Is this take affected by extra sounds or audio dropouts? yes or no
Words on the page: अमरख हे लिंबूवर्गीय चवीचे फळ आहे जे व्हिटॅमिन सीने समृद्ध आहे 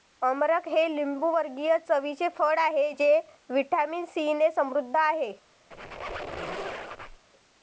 yes